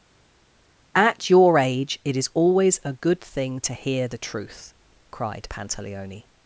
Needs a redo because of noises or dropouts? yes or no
no